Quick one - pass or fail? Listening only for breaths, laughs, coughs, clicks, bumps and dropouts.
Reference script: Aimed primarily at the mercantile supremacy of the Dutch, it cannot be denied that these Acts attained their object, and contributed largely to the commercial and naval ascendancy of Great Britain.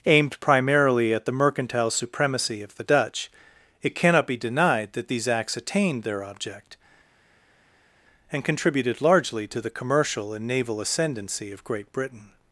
pass